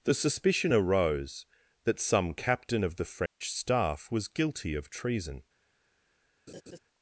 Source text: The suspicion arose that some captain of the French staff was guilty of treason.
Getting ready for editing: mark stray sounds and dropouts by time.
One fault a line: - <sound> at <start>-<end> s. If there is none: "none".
- dropout at 3.3-3.4 s
- laugh at 6.5-6.8 s